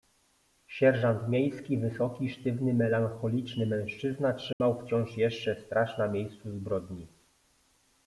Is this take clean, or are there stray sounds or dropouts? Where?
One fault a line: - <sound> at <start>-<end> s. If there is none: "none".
- dropout at 4.5-4.6 s